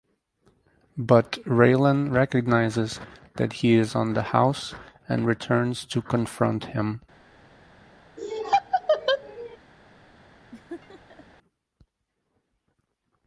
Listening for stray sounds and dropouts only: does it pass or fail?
fail